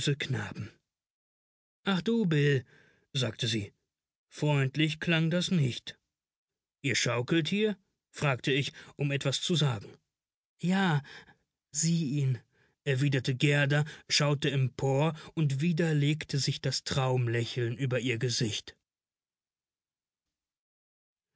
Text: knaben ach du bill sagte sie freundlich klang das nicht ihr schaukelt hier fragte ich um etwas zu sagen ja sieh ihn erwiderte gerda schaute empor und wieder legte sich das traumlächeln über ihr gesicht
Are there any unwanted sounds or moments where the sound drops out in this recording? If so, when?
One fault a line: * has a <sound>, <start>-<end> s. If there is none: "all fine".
all fine